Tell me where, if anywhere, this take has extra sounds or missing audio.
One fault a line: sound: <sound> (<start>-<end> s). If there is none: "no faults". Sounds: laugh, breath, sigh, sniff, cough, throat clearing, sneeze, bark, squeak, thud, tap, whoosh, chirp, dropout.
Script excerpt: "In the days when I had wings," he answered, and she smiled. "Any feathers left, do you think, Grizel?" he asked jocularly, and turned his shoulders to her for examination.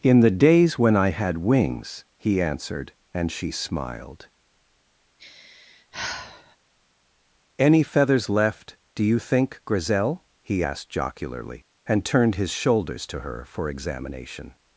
sound: sigh (5.2-6.6 s)